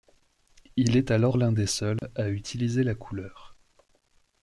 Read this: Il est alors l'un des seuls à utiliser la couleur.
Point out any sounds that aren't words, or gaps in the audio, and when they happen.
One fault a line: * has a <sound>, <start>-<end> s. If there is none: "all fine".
* has a dropout, 2.0-2.0 s